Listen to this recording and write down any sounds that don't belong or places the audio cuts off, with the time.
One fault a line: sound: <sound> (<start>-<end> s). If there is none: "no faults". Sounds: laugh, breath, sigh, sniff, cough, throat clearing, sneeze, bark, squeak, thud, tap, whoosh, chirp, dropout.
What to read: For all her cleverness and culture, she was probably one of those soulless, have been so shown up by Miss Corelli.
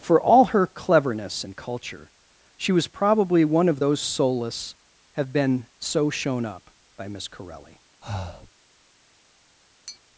sound: breath (8.0-8.5 s)
sound: tap (9.9-10.0 s)